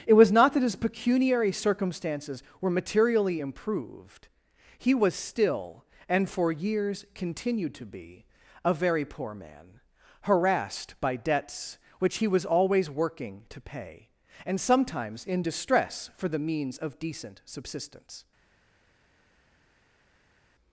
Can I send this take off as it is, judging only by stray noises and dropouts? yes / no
yes